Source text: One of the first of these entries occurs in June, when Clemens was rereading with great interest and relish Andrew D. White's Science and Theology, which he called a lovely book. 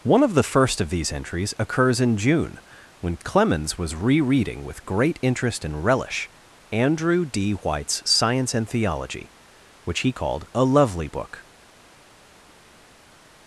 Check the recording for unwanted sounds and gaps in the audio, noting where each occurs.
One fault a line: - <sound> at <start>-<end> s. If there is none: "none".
none